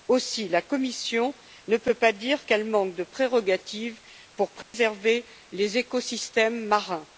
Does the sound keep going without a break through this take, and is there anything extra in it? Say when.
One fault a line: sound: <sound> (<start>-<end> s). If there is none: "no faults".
sound: dropout (4.6-4.7 s)